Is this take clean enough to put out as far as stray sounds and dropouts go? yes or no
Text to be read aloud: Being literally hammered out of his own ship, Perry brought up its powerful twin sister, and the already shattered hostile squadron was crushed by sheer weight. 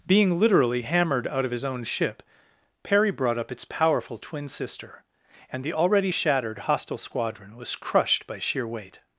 yes